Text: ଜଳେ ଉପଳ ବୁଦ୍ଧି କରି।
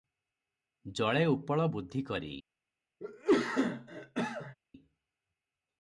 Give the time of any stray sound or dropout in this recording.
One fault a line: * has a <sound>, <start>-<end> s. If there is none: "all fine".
* has a cough, 3.0-4.5 s